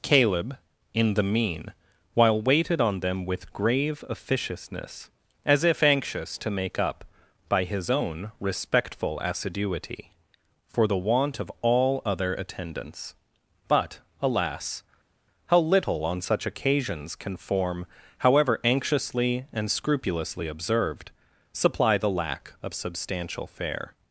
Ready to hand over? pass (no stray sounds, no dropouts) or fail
pass